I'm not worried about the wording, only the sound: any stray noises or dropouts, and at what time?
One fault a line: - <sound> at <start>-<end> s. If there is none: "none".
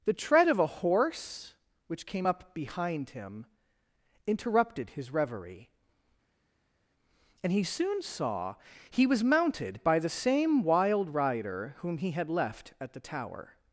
none